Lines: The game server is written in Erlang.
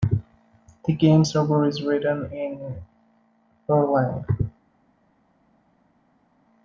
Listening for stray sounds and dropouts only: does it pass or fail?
pass